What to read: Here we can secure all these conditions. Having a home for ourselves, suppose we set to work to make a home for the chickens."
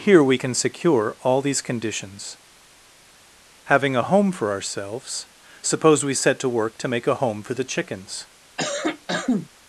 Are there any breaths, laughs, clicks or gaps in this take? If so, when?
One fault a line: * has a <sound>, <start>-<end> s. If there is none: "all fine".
* has a cough, 8.6-9.5 s